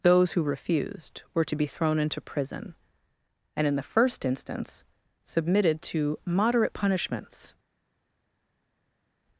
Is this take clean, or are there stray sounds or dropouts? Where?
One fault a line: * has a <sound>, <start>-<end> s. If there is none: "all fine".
all fine